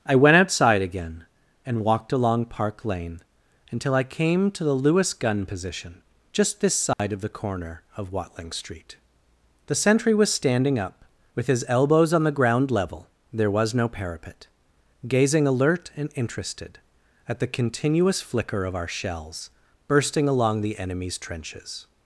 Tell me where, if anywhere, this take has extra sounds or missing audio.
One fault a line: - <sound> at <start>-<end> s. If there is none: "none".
- dropout at 6.9-7.0 s